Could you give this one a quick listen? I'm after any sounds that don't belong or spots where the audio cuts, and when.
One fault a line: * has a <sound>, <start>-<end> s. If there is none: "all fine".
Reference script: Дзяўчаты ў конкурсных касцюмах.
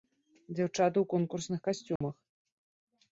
* has a dropout, 2.0-2.0 s